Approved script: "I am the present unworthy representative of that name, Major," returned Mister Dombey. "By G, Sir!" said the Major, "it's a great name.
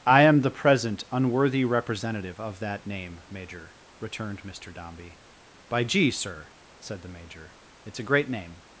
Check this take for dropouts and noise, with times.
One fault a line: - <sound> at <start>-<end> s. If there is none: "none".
none